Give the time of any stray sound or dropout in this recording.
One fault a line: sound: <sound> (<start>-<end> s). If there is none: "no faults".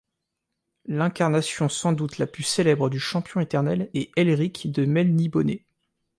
no faults